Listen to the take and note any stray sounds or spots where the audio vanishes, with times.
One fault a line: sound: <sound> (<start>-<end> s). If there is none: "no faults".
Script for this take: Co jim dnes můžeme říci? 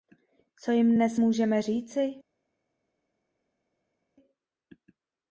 no faults